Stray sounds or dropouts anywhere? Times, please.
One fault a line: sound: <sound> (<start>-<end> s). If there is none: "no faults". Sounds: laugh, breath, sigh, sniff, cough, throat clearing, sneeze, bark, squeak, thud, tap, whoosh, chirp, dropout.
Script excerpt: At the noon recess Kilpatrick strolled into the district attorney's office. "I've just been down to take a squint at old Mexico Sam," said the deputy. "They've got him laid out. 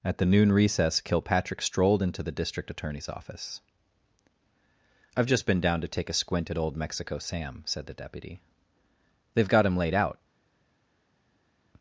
no faults